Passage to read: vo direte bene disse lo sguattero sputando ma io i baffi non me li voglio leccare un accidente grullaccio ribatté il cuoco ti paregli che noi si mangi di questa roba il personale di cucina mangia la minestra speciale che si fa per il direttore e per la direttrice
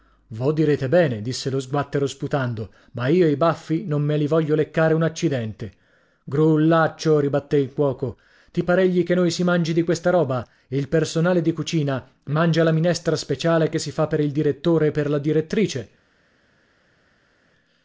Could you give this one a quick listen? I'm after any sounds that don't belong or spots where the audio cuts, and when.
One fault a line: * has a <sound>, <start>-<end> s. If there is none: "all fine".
all fine